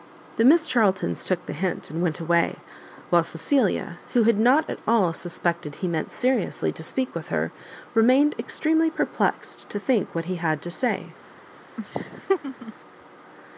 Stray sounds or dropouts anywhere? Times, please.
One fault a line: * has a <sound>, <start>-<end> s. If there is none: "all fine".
* has a laugh, 11.8-12.7 s